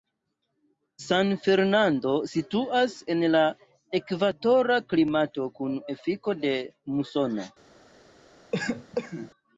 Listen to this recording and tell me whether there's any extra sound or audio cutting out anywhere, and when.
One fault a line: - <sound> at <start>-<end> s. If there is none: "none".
- cough at 8.5-9.3 s